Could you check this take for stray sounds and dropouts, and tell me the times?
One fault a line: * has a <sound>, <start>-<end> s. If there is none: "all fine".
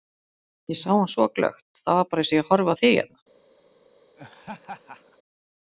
* has a laugh, 4.2-5.2 s